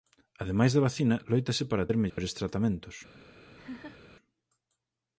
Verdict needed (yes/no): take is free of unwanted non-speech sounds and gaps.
no